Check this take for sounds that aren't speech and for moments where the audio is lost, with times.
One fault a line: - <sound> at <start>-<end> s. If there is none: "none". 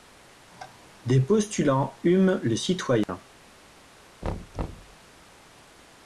- dropout at 3.0-3.1 s
- thud at 4.2-5.0 s